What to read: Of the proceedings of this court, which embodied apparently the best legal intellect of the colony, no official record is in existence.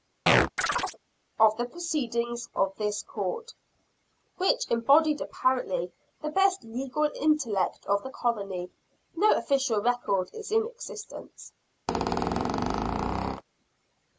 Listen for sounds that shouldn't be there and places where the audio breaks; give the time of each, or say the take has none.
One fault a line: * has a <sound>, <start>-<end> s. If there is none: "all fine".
* has a chirp, 0.3-1.0 s
* has a squeak, 11.9-13.4 s